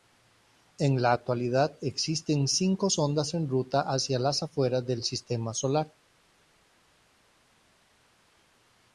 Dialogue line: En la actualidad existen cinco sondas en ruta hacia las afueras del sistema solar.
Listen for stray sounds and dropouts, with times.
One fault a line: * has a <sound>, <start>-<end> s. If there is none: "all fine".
all fine